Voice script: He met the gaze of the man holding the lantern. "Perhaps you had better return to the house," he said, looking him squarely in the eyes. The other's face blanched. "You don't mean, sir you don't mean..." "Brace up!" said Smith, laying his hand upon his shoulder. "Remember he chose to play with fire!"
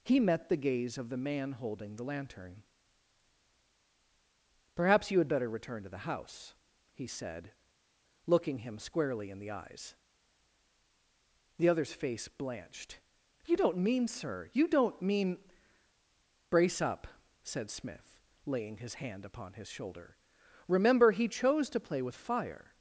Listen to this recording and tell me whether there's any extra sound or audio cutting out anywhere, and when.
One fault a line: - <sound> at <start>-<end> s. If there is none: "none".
none